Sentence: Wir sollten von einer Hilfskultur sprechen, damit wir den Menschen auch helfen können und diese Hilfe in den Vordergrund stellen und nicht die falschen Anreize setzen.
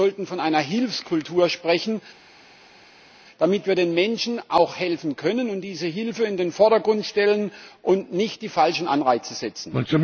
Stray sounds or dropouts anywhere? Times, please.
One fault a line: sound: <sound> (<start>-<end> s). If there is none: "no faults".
no faults